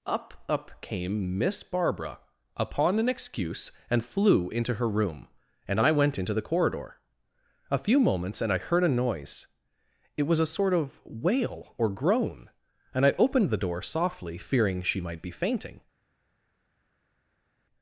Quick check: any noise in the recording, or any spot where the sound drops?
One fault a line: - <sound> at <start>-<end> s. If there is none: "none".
none